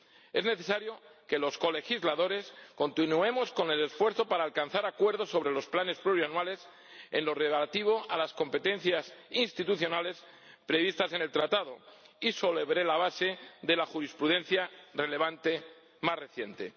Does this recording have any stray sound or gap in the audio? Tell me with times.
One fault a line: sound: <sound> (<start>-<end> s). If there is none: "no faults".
no faults